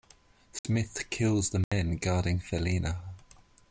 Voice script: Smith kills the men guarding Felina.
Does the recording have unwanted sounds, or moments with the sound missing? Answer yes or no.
yes